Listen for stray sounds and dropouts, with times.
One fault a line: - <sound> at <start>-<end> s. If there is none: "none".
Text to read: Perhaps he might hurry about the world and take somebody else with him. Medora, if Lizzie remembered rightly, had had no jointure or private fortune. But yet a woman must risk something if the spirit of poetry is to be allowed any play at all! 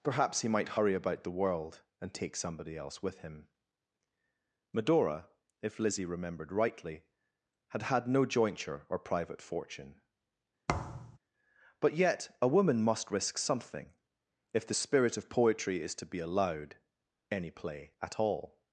- thud at 10.7-11.2 s